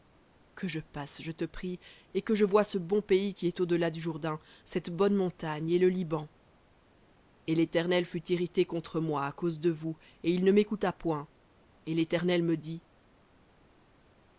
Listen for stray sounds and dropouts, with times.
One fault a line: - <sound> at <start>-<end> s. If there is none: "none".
none